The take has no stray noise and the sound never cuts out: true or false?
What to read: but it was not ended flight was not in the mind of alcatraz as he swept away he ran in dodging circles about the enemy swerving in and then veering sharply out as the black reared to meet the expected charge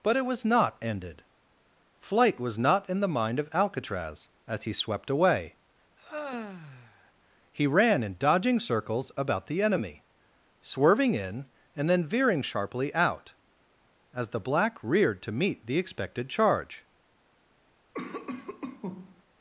false